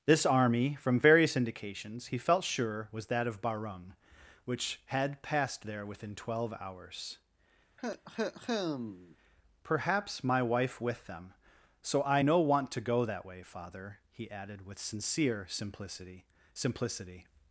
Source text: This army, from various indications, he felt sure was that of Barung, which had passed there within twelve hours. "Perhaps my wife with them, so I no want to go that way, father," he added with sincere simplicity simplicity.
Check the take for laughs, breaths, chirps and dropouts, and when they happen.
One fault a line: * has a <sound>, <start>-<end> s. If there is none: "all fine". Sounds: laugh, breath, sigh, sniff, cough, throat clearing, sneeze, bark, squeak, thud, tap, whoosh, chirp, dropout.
* has a cough, 7.8-9.2 s